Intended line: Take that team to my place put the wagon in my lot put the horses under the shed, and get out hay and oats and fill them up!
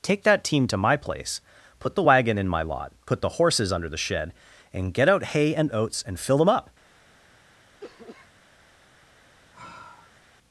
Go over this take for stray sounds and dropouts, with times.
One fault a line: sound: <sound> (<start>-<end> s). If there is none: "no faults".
sound: cough (7.8-8.3 s)
sound: sigh (9.5-10.2 s)